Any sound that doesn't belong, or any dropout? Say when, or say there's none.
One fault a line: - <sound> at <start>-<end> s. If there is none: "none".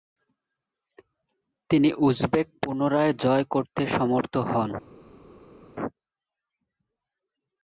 none